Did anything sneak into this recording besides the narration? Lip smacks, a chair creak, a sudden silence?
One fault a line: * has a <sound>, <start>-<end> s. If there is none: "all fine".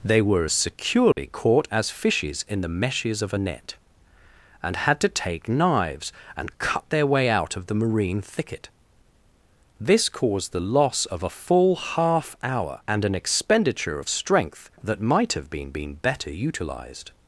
* has a dropout, 1.1-1.2 s